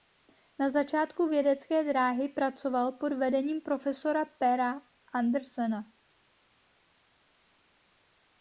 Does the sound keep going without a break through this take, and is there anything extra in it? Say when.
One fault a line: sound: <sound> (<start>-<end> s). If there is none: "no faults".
no faults